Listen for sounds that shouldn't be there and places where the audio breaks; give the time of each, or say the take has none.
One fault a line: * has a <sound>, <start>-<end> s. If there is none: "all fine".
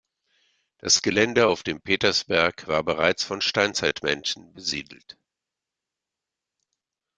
all fine